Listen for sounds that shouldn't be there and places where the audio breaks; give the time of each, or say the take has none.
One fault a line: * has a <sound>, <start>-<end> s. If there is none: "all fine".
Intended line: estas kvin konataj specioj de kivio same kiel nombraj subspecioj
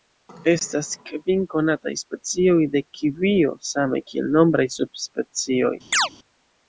* has a chirp, 5.9-6.1 s